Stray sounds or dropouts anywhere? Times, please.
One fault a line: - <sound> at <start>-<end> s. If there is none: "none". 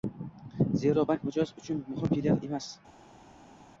none